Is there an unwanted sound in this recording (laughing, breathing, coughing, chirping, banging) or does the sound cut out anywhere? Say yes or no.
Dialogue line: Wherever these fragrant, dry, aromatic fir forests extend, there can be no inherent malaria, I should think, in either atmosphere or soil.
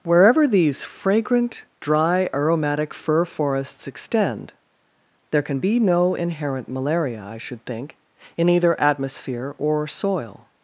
no